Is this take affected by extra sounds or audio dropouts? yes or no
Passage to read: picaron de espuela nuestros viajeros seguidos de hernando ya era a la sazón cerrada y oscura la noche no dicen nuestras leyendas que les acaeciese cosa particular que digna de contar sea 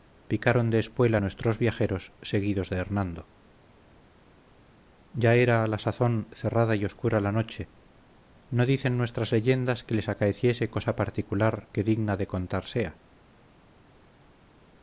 no